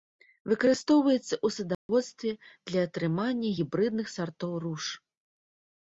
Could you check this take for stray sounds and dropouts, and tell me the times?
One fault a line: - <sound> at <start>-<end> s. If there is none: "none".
- dropout at 1.7-1.9 s